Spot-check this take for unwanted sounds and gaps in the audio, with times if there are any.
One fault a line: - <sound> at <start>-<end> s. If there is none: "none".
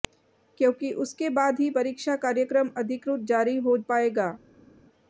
none